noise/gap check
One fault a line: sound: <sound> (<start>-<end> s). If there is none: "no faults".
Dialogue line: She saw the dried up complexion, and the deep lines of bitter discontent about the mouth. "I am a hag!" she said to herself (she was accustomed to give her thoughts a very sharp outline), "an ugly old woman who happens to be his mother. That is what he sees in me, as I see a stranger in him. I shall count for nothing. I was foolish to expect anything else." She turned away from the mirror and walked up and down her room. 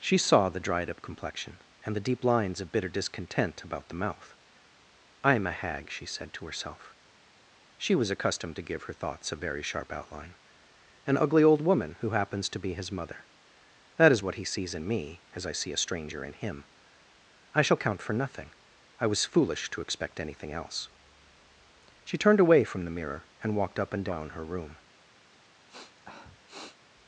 sound: sniff (25.7-26.8 s)